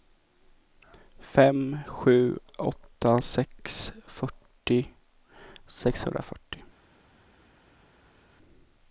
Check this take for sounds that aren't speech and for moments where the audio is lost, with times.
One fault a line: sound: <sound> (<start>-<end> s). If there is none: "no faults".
no faults